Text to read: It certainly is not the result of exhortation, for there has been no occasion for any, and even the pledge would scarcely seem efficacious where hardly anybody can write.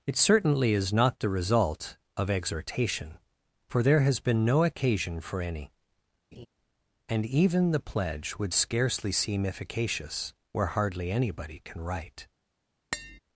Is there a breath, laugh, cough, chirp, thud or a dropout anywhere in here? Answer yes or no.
yes